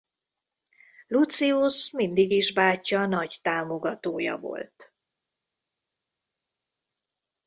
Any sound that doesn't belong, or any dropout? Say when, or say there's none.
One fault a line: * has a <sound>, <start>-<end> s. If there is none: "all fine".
all fine